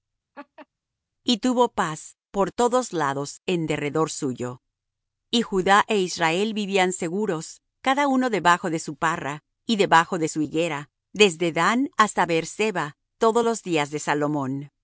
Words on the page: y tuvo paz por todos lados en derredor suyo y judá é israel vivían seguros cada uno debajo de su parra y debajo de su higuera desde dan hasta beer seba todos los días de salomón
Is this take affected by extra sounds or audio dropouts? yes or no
yes